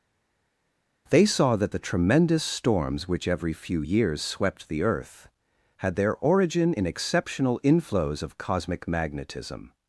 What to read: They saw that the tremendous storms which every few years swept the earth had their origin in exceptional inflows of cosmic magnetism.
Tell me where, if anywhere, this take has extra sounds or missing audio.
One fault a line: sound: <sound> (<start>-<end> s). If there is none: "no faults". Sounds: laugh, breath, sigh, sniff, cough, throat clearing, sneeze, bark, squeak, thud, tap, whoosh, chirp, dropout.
no faults